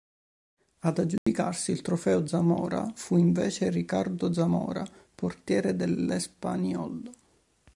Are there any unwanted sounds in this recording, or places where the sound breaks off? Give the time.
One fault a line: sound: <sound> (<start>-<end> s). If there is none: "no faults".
sound: dropout (1.2-1.3 s)